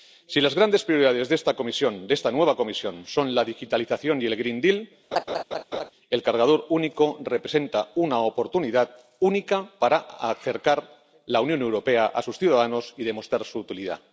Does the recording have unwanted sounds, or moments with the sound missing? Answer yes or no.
yes